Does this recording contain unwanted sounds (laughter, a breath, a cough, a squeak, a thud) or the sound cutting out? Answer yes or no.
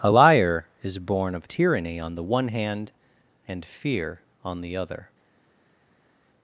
no